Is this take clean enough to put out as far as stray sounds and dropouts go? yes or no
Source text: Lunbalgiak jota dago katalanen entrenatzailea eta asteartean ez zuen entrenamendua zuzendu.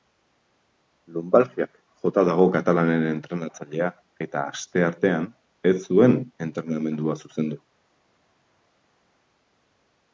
yes